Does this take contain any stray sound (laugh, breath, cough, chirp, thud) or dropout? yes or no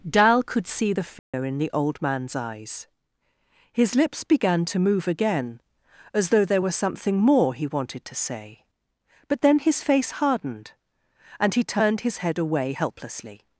yes